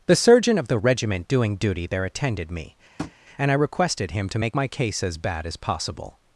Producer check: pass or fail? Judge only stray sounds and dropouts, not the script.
fail